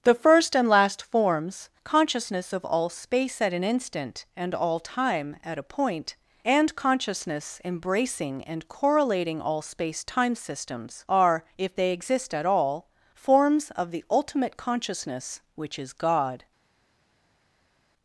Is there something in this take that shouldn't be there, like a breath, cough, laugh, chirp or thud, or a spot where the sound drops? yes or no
no